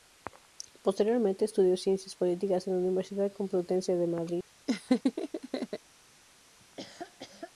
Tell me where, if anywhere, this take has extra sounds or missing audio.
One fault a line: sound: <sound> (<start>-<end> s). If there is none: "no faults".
sound: laugh (4.7-5.8 s)
sound: laugh (6.6-7.5 s)